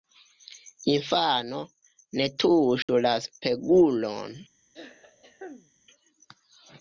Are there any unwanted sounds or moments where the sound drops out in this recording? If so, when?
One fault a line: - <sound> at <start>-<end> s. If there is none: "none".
- dropout at 2.8-2.9 s
- throat clearing at 4.7-5.7 s